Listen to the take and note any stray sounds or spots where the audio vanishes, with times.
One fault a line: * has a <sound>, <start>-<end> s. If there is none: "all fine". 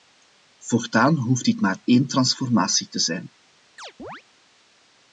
* has a chirp, 3.8-4.2 s